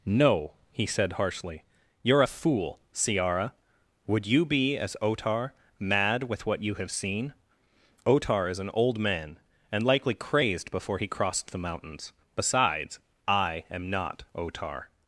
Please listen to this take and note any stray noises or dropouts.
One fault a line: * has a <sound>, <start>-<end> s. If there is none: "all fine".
all fine